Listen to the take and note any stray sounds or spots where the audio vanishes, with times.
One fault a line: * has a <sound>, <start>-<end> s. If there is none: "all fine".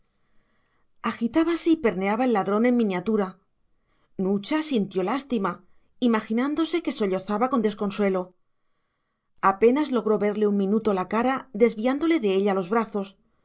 all fine